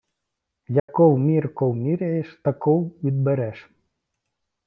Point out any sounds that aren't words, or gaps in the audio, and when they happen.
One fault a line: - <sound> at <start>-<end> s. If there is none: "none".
- dropout at 0.8-0.9 s